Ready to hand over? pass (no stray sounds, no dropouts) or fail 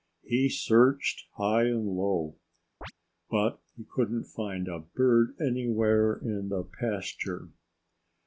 fail